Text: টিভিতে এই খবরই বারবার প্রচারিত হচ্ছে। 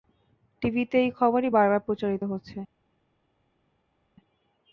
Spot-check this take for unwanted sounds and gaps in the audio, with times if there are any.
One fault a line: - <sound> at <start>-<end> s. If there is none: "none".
none